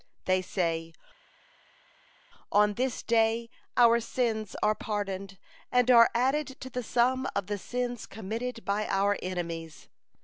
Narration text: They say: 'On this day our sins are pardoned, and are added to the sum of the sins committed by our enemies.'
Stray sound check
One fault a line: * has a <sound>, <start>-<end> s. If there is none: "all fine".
all fine